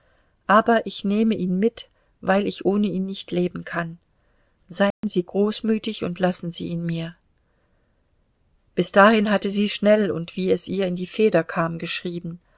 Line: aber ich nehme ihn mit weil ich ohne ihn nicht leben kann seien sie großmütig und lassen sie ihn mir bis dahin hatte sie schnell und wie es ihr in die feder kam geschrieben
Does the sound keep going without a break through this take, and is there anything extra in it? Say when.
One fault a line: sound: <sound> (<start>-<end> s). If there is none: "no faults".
sound: dropout (4.9-5.0 s)